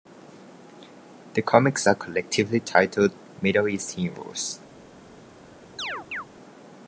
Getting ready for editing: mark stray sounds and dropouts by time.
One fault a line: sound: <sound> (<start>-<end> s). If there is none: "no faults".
sound: chirp (5.8-6.3 s)